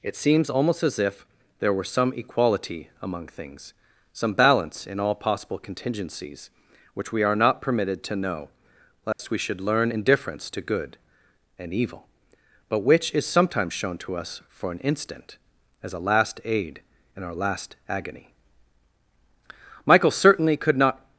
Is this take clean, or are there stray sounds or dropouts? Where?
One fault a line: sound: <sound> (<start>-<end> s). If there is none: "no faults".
sound: dropout (9.1-9.2 s)